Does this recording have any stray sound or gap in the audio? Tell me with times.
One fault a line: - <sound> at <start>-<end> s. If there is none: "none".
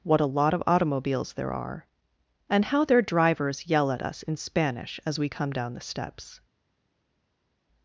none